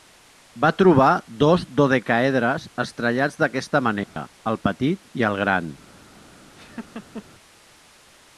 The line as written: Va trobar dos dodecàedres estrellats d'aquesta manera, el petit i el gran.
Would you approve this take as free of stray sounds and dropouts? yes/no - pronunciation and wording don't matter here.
no